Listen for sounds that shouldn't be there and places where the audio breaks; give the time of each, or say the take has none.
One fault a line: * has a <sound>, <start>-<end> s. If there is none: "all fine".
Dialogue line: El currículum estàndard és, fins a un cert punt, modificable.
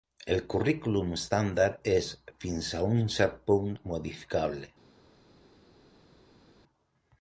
all fine